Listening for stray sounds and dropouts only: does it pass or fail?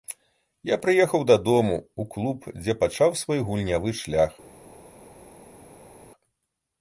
pass